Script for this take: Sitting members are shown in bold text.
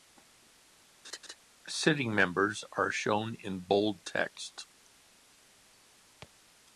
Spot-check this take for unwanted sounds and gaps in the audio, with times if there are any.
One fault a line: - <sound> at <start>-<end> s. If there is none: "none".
- laugh at 1.0-1.4 s